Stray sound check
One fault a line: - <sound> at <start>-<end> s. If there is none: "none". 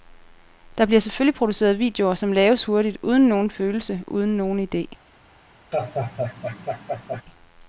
- laugh at 5.7-7.2 s